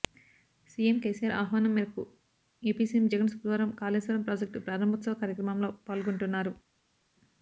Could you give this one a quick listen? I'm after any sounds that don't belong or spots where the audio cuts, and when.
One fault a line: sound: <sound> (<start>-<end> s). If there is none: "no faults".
no faults